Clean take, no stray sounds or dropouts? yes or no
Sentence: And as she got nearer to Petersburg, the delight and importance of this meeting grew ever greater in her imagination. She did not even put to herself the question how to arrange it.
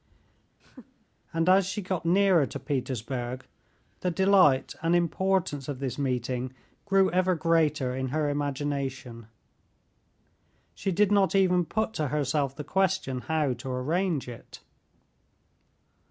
no